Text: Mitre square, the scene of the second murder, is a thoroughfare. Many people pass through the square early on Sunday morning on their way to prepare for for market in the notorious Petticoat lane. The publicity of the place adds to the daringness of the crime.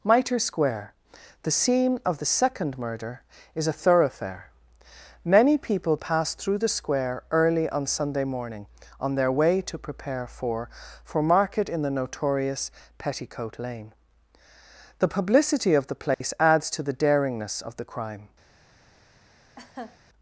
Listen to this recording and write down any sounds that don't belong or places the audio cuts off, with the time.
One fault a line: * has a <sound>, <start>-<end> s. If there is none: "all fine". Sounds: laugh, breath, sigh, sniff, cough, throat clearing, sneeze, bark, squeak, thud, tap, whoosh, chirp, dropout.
* has a dropout, 16.1-16.2 s
* has a laugh, 19.6-20.0 s